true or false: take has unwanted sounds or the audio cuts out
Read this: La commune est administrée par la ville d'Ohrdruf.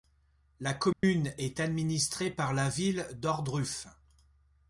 true